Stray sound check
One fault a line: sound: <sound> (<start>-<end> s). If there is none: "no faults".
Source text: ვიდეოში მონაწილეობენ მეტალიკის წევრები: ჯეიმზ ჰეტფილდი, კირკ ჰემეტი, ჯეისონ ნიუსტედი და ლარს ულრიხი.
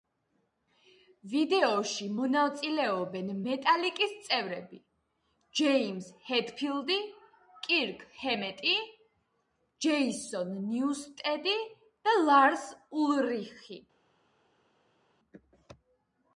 no faults